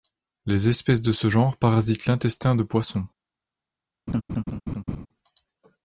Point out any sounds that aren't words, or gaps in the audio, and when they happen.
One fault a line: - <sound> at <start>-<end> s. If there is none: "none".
- laugh at 4.1-5.1 s